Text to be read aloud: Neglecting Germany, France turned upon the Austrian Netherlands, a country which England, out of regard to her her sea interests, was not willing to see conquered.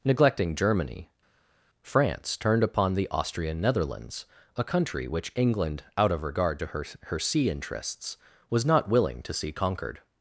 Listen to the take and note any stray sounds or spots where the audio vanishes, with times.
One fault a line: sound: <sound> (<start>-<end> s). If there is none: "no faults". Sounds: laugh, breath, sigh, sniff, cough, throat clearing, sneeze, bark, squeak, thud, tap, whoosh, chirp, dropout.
no faults